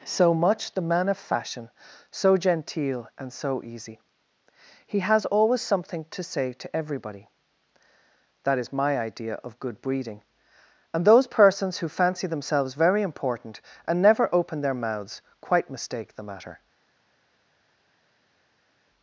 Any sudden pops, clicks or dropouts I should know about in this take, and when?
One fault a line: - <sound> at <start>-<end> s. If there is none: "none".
none